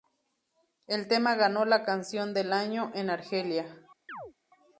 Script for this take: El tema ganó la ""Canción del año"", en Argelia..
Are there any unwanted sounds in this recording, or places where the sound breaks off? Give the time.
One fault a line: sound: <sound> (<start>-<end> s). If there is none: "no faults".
sound: chirp (4.1-4.3 s)